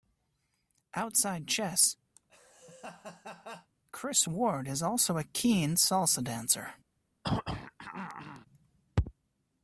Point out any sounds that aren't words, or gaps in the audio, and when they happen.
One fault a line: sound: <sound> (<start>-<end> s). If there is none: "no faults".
sound: laugh (2.2-3.7 s)
sound: throat clearing (7.2-8.5 s)